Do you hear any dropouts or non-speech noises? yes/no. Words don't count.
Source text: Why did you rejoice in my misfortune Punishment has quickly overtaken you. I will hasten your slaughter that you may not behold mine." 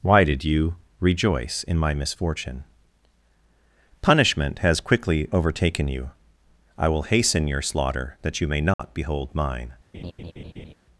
yes